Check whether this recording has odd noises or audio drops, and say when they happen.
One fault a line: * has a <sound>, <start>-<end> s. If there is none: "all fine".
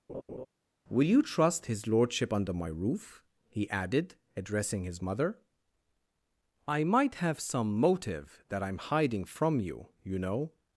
* has a laugh, 0.1-0.5 s